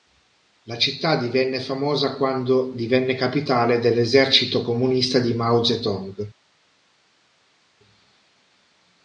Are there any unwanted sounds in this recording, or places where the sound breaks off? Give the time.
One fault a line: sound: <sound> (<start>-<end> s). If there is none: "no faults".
no faults